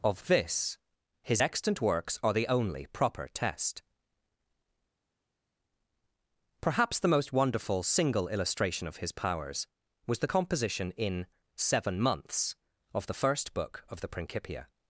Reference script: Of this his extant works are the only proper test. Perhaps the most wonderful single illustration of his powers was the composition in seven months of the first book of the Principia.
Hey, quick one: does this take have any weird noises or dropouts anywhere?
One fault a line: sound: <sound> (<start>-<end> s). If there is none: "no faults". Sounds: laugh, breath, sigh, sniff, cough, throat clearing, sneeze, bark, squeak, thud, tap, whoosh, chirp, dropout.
no faults